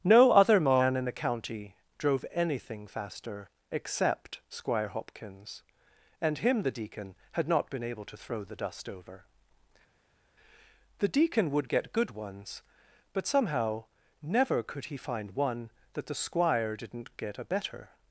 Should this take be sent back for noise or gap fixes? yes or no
no